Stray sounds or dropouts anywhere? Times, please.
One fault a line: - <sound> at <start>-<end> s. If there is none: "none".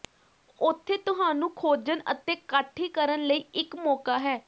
none